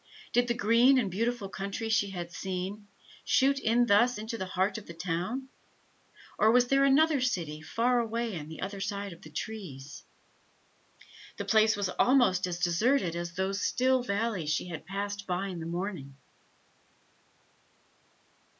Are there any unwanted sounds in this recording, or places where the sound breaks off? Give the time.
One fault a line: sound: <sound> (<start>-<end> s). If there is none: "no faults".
no faults